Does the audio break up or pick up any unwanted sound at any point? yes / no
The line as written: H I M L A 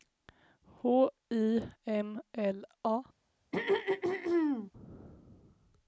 yes